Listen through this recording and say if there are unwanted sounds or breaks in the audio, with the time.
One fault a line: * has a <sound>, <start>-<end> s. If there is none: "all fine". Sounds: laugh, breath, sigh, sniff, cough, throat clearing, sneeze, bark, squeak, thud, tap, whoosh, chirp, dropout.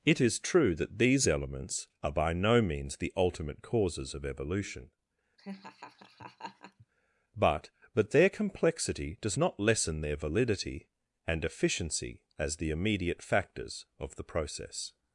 * has a laugh, 5.4-6.9 s